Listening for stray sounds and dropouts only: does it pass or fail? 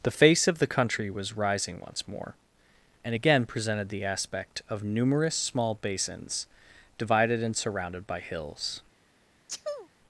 fail